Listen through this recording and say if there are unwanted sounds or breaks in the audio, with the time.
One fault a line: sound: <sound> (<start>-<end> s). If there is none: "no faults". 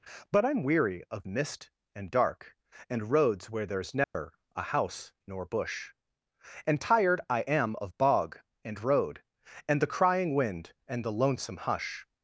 sound: dropout (4.0-4.1 s)